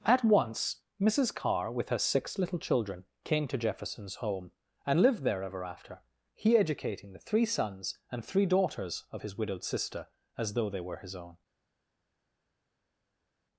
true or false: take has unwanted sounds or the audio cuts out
false